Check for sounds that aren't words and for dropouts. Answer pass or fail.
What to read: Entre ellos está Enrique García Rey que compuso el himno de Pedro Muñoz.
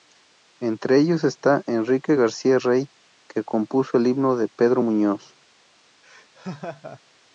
fail